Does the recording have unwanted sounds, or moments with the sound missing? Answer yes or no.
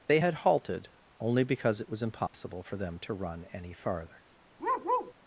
yes